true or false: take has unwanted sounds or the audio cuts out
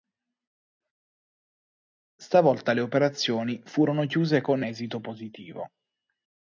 false